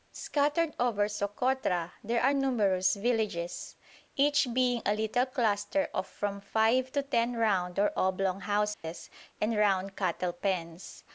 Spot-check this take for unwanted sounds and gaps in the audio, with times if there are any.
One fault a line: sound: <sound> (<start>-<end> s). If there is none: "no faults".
sound: dropout (8.7-8.8 s)